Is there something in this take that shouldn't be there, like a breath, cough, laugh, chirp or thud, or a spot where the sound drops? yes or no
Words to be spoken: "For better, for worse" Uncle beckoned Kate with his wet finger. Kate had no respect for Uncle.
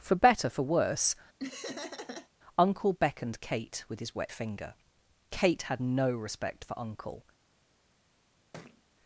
yes